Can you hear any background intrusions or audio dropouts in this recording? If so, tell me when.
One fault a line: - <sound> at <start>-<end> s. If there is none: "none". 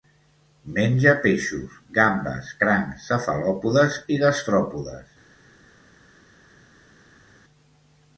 none